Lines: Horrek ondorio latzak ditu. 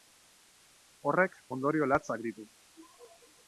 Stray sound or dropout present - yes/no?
no